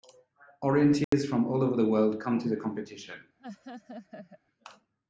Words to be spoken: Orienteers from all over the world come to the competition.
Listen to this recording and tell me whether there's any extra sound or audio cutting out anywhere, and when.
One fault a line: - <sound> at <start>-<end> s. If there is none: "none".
- dropout at 1.0-1.1 s
- laugh at 3.4-4.4 s